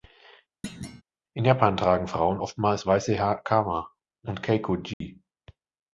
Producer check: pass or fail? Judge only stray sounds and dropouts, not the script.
fail